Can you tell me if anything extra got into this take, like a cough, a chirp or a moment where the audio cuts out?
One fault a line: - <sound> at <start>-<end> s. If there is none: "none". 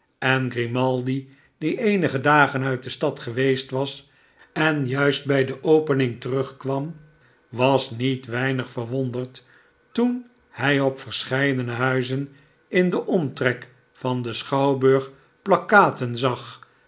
none